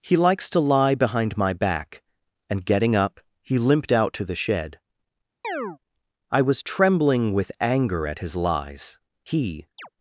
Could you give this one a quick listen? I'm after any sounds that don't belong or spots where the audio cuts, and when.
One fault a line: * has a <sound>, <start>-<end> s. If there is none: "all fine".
* has a chirp, 5.4-5.8 s
* has a chirp, 9.8-9.9 s